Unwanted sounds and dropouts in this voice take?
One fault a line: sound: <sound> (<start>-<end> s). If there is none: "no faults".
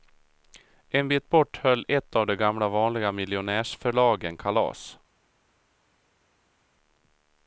no faults